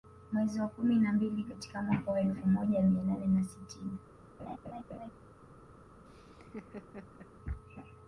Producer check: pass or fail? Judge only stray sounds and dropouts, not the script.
fail